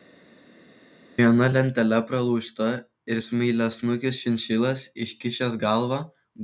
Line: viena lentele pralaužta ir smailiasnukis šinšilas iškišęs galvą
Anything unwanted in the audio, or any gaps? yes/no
no